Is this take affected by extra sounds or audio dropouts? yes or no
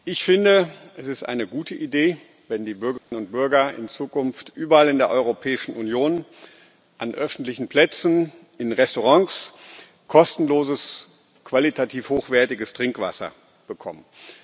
yes